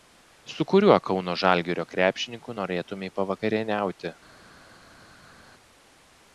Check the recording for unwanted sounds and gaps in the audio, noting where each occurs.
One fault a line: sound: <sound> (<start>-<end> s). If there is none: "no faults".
no faults